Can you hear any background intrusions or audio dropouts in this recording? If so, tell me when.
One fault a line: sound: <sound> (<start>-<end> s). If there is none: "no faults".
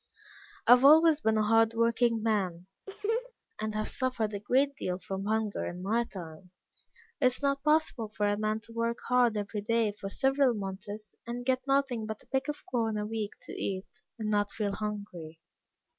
sound: laugh (2.9-3.3 s)